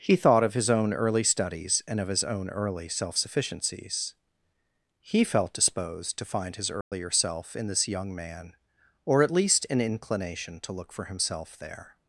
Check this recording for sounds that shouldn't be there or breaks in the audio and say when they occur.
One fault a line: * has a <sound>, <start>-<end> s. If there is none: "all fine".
* has a dropout, 6.8-6.9 s